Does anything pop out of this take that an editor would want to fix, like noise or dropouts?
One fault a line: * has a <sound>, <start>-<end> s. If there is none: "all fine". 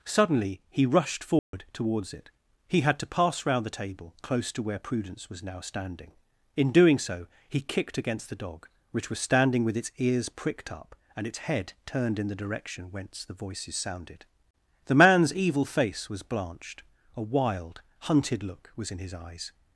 * has a dropout, 1.4-1.5 s